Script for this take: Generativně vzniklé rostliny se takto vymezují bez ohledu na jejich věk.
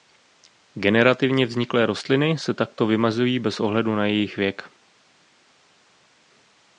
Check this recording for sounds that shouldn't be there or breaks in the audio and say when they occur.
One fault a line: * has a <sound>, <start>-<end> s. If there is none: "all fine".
all fine